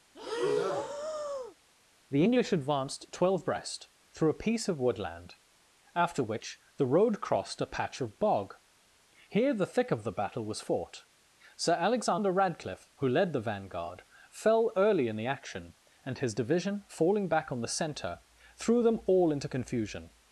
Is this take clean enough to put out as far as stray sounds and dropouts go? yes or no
no